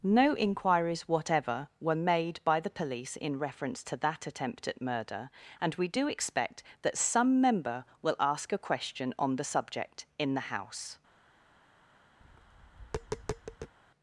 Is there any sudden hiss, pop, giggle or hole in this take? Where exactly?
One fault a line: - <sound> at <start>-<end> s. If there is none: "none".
- tap at 12.2-13.7 s